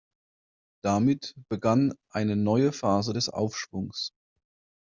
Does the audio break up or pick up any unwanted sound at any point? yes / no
no